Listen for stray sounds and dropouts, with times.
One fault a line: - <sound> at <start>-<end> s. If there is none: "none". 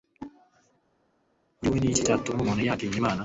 none